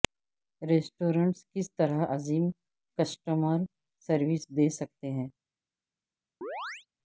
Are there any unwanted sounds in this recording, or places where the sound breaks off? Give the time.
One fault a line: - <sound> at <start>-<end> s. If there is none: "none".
- chirp at 6.4-6.9 s